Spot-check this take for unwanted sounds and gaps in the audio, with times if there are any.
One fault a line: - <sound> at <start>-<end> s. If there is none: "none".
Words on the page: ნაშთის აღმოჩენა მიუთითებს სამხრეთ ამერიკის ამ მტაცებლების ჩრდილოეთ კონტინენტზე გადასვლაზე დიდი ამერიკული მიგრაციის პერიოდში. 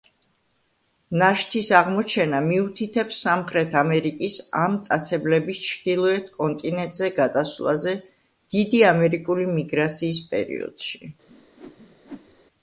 - whoosh at 11.3-12.4 s